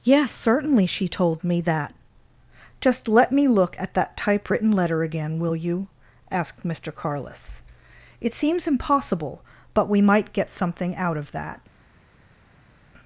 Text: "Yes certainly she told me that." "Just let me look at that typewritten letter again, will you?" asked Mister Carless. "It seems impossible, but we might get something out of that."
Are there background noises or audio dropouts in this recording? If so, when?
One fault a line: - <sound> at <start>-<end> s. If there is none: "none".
none